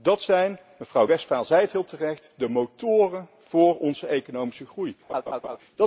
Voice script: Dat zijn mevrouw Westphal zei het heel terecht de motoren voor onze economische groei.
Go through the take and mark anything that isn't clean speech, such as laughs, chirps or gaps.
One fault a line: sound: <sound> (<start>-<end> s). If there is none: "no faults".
sound: laugh (5.1-5.6 s)